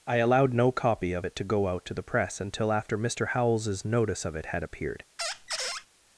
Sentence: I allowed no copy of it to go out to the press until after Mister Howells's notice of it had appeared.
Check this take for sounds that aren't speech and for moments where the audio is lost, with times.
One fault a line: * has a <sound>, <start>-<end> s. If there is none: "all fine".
* has a squeak, 5.2-5.9 s